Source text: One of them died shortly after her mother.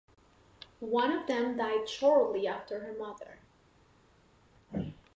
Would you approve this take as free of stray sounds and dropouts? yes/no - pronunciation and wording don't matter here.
yes